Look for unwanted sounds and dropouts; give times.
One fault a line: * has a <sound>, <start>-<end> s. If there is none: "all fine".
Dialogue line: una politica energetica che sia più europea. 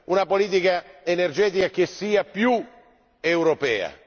all fine